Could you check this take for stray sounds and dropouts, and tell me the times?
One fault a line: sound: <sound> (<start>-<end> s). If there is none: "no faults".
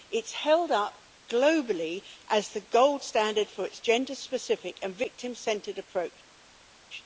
no faults